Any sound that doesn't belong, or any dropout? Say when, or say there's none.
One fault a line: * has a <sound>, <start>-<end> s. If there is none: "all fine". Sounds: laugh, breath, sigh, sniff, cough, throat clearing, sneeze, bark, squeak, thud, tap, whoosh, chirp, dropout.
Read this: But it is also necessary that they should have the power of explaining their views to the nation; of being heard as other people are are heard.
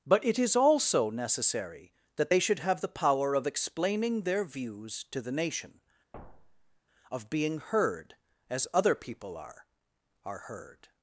* has a thud, 6.1-6.8 s